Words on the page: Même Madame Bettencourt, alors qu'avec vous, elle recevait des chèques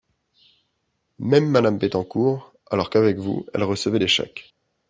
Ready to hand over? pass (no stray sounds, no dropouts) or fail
pass